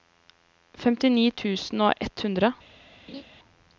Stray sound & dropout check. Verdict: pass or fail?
fail